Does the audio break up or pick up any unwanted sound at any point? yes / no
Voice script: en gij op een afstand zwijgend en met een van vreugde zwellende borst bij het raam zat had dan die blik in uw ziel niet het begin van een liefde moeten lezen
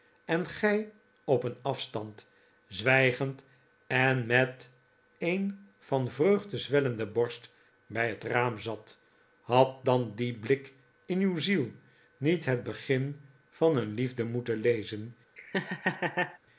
yes